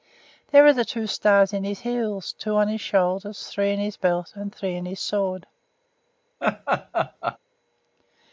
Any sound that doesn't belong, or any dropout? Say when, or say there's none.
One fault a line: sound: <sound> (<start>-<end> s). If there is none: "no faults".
sound: laugh (6.4-7.4 s)